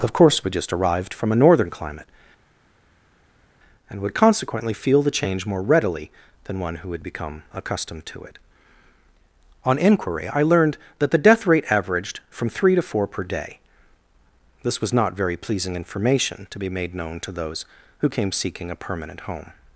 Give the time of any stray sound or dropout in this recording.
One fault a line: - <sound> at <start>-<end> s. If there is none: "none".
none